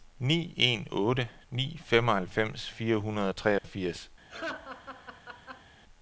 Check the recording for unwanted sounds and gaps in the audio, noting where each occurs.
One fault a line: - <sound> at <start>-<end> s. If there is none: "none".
- dropout at 3.6-3.6 s
- laugh at 4.3-5.7 s